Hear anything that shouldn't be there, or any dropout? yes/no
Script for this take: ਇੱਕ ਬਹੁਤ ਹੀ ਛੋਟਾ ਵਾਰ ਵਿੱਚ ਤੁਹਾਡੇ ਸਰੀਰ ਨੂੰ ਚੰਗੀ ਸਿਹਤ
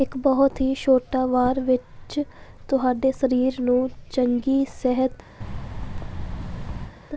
yes